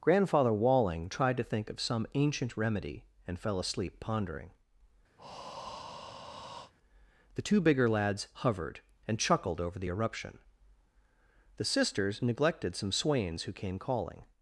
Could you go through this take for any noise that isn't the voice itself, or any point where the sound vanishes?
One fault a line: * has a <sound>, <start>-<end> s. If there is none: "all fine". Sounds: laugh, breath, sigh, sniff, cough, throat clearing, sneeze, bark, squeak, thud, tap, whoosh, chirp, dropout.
* has a breath, 5.2-6.7 s